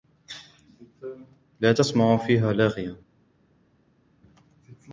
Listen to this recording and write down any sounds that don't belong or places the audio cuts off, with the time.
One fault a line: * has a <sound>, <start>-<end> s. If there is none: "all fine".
all fine